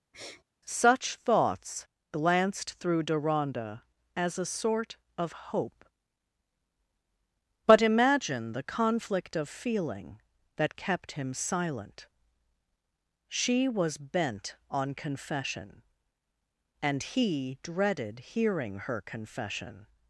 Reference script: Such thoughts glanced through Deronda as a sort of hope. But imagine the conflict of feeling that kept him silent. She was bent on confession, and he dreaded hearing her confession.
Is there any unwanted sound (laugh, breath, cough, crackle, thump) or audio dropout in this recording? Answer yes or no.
yes